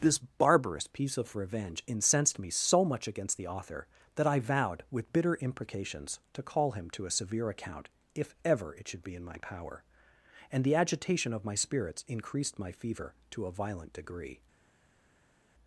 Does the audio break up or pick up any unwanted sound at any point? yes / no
no